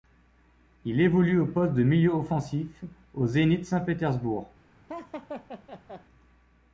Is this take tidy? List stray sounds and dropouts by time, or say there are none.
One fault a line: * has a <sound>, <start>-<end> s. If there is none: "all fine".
* has a laugh, 4.9-6.1 s